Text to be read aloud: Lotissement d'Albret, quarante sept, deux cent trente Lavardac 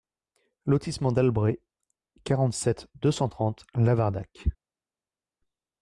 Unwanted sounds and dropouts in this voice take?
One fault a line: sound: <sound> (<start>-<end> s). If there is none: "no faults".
no faults